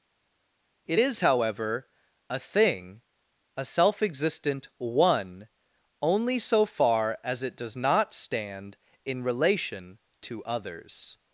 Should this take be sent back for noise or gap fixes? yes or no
no